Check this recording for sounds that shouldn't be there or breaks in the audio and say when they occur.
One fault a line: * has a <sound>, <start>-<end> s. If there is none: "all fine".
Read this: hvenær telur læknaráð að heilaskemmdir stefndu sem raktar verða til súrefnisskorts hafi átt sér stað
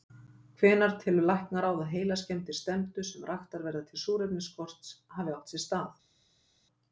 all fine